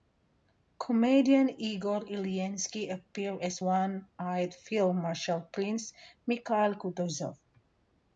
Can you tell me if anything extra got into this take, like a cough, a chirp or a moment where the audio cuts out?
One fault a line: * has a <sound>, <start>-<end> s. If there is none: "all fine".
all fine